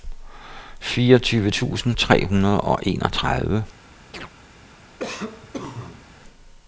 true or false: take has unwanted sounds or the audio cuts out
true